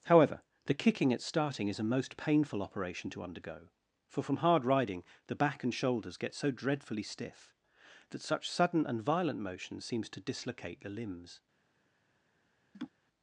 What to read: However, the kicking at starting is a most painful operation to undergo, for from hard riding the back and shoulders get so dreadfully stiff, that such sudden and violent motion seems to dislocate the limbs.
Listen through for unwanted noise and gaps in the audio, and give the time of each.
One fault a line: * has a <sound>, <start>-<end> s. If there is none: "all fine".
* has a laugh, 12.7-12.9 s